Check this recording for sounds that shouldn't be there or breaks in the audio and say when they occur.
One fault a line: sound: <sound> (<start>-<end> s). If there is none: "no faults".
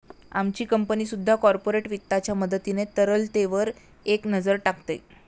no faults